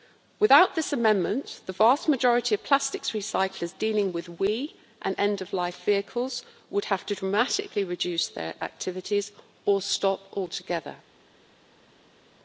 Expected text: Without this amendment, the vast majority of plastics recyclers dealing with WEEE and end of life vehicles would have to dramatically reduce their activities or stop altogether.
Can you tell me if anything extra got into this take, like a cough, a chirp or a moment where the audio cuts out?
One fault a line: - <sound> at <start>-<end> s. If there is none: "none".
none